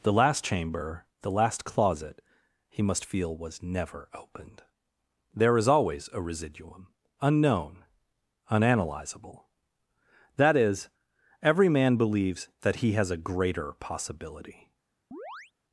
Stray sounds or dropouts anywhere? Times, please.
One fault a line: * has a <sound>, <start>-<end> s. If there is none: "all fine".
* has a chirp, 15.1-15.5 s